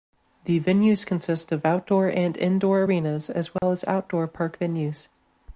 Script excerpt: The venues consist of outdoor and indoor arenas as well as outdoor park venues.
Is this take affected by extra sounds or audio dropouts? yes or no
yes